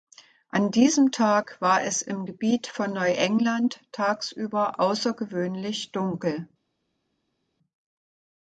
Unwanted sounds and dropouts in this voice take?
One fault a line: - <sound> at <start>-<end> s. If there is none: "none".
none